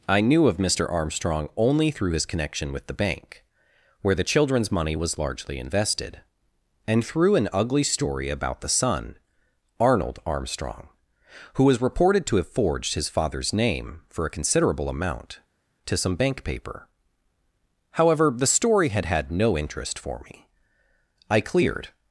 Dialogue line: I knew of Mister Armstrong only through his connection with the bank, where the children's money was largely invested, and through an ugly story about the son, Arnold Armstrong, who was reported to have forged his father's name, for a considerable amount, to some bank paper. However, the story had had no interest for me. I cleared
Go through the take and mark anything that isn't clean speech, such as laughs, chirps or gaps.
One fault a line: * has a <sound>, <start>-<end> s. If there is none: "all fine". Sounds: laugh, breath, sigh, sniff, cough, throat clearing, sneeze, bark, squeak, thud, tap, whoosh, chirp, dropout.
all fine